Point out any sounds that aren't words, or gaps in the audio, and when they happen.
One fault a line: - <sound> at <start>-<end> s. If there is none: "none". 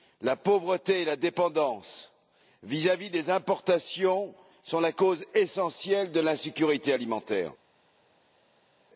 none